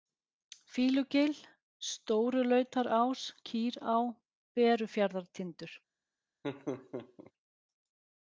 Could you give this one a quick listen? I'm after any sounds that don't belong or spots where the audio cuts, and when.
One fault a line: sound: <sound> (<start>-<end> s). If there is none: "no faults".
sound: laugh (6.4-7.3 s)